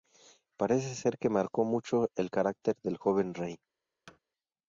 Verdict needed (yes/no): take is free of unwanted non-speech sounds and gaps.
no